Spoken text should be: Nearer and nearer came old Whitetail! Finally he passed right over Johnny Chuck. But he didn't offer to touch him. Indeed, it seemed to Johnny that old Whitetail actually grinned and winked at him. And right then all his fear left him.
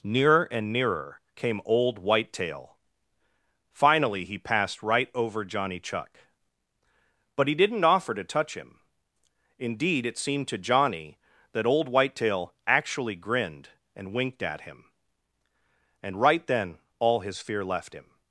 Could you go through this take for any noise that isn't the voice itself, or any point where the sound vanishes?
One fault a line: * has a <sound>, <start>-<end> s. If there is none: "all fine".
all fine